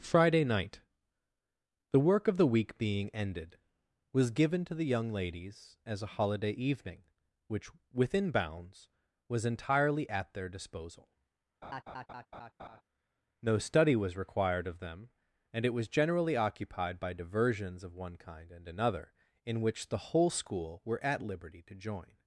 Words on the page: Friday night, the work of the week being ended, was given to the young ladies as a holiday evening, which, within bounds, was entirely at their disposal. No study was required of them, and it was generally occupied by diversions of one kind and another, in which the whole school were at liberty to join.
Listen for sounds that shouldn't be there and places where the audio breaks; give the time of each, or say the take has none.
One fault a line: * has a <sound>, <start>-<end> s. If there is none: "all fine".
* has a laugh, 11.6-12.8 s